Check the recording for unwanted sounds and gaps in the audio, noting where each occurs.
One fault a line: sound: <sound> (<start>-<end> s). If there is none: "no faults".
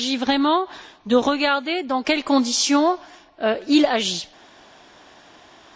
no faults